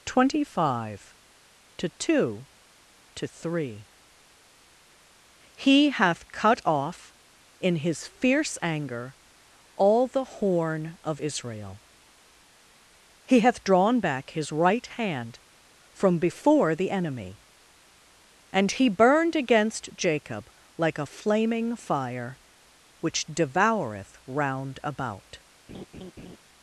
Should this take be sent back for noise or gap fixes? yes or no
yes